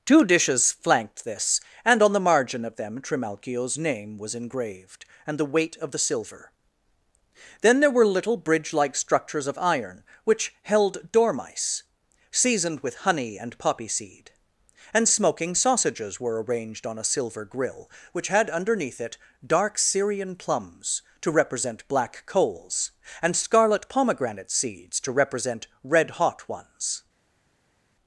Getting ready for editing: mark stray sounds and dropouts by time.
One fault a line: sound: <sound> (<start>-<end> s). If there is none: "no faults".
no faults